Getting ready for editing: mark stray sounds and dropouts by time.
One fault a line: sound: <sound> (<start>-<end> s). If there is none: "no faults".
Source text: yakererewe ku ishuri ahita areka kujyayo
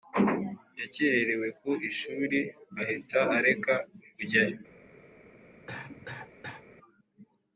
sound: cough (5.7-6.6 s)